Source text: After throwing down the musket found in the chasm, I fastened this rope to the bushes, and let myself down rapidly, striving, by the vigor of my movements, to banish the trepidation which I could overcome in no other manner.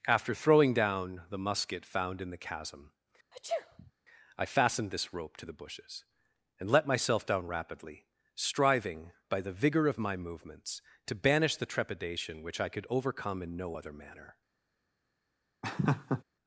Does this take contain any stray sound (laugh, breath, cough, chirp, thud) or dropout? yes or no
yes